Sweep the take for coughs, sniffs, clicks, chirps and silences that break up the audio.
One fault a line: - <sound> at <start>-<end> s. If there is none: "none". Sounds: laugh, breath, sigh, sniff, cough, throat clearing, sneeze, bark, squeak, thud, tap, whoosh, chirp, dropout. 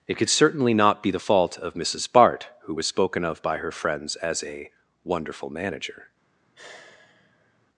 - sigh at 6.5-7.7 s